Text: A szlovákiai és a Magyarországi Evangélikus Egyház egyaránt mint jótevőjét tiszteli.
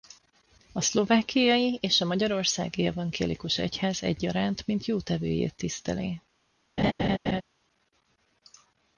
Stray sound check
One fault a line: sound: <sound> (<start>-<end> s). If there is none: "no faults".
sound: laugh (6.8-7.4 s)